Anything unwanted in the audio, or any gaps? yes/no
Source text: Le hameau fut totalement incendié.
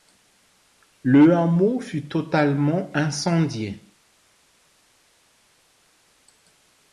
no